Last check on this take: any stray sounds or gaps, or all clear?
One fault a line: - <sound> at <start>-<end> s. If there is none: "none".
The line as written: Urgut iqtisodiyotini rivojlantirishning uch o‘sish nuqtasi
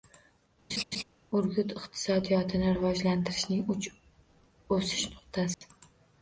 - laugh at 0.7-1.0 s
- dropout at 5.5-5.6 s